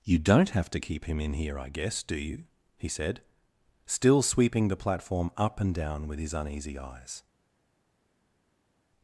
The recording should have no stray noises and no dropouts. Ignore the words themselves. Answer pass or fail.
pass